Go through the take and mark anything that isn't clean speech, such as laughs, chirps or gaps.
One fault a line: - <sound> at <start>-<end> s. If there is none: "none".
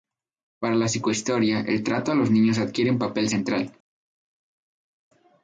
none